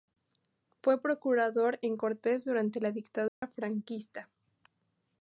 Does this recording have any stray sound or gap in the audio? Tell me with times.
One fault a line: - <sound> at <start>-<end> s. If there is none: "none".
- dropout at 3.3-3.4 s